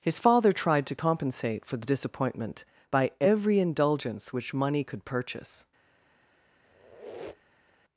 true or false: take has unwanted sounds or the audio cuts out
true